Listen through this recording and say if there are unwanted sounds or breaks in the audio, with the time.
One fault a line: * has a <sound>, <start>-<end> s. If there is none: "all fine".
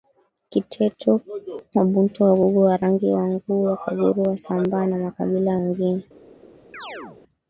* has a chirp, 6.7-7.2 s